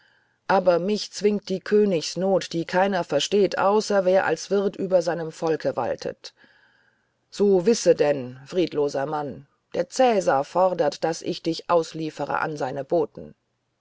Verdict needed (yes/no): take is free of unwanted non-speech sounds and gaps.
yes